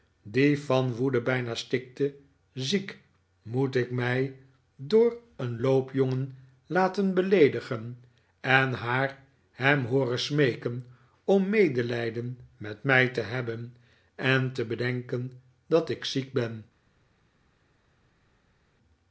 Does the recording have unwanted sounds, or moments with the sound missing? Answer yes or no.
no